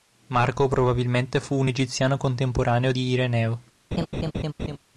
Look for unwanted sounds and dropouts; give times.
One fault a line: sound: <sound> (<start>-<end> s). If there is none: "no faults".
sound: laugh (3.9-4.8 s)